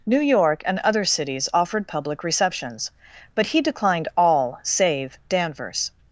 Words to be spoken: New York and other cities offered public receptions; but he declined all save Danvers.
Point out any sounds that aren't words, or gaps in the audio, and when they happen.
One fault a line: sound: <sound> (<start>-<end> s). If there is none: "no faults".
no faults